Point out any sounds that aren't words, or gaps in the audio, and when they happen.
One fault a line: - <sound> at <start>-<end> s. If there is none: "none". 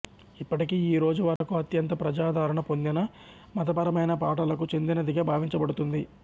- dropout at 1.4-1.4 s